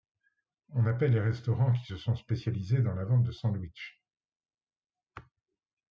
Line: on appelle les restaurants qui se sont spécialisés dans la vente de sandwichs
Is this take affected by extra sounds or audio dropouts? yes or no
no